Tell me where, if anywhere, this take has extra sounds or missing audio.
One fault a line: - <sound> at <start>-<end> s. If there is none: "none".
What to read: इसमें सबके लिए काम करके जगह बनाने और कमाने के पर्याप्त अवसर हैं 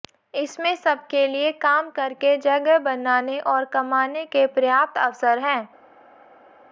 none